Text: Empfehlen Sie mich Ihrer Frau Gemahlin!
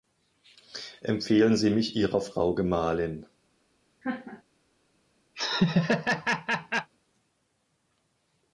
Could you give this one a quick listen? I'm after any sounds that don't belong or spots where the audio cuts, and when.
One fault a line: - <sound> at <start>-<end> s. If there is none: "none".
- laugh at 4.0-4.4 s
- laugh at 5.3-6.9 s